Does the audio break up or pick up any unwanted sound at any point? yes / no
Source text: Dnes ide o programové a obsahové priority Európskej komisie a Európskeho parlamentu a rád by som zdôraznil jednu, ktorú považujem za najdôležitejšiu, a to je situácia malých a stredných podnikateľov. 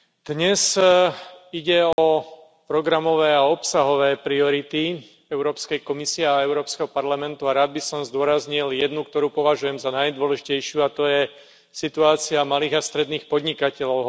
yes